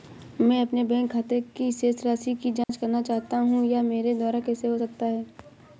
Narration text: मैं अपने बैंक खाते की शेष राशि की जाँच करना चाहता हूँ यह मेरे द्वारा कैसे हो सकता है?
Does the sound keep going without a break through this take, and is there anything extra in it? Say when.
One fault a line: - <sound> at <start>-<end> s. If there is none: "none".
- dropout at 2.6-2.7 s